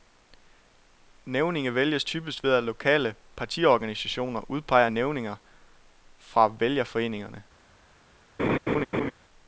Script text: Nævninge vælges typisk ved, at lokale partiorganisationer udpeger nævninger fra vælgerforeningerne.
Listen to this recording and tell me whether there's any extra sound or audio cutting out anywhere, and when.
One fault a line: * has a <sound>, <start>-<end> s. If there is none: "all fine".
* has a laugh, 8.4-9.1 s